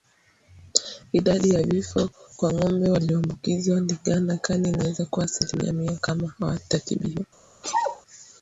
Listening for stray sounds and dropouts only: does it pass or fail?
fail